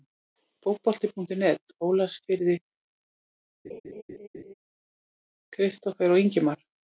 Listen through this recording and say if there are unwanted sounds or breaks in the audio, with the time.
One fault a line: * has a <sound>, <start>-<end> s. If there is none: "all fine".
* has a laugh, 3.6-4.5 s